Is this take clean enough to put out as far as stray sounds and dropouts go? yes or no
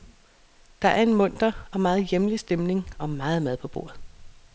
yes